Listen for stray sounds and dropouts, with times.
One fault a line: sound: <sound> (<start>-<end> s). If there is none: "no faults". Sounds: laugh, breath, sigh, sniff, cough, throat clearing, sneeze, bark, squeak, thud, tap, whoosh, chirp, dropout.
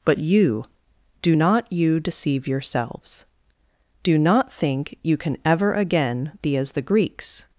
no faults